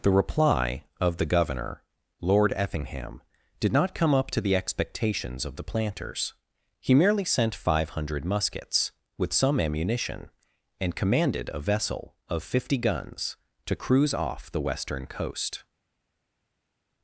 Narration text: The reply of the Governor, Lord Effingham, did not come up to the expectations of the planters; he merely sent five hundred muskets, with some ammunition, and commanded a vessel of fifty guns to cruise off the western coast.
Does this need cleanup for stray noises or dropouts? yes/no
no